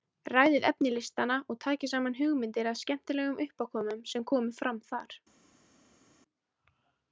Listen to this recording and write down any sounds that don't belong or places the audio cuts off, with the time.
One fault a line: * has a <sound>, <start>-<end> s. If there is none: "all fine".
all fine